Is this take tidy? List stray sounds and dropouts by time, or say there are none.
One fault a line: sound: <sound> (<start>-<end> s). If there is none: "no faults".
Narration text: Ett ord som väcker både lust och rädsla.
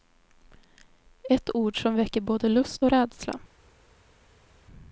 no faults